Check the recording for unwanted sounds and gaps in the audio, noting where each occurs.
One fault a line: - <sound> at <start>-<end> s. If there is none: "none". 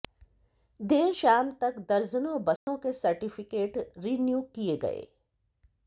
- dropout at 2.6-2.7 s